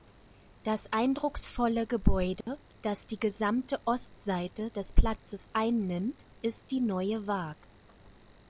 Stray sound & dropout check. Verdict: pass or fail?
fail